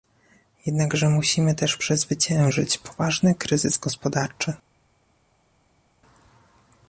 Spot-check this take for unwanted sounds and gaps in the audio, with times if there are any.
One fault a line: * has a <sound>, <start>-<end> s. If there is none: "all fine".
all fine